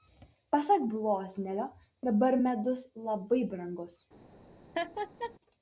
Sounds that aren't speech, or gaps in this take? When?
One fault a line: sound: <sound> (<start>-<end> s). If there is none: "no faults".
sound: laugh (4.7-5.3 s)